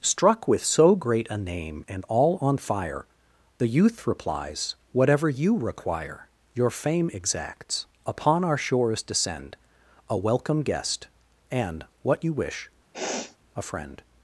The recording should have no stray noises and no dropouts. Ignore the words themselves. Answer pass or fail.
fail